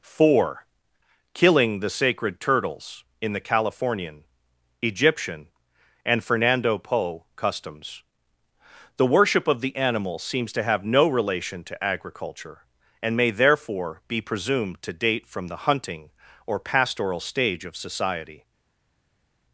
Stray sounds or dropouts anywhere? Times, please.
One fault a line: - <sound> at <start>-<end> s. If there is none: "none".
none